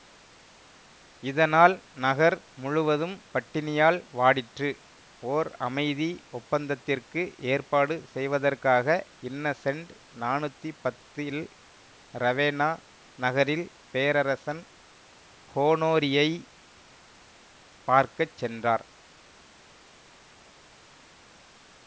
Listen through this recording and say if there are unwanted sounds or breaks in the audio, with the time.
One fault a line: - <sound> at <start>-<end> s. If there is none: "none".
none